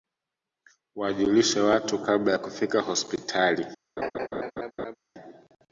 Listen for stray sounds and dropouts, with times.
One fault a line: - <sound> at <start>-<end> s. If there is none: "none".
- laugh at 4.0-5.0 s